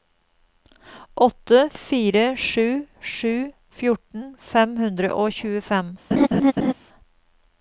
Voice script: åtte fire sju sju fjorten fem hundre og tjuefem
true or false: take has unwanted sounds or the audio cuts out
true